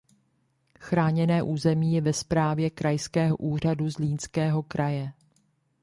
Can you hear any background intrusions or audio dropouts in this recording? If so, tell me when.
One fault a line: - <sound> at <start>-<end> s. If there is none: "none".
none